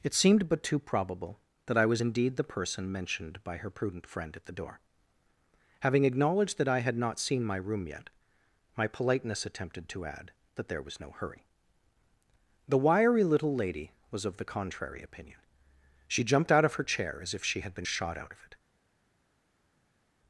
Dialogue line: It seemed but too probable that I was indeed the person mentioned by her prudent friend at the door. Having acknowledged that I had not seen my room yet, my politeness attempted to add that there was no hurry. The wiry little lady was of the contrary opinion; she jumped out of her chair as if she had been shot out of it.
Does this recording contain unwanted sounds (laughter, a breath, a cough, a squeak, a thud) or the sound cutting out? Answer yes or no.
no